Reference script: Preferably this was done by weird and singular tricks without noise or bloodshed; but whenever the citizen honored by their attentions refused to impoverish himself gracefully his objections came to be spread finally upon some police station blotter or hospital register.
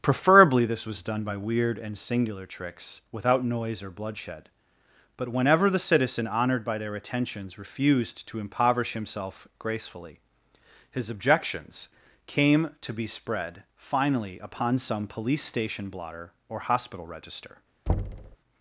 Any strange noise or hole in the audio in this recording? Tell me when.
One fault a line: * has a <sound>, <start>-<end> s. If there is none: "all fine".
* has a thud, 17.9-18.4 s